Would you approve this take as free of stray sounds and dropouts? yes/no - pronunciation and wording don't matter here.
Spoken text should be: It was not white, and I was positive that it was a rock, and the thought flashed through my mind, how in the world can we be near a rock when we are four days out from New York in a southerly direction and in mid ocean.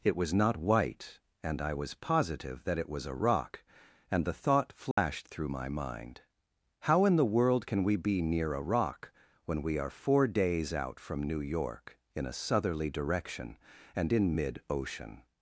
no